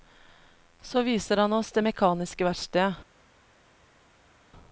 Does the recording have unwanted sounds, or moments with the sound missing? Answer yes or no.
no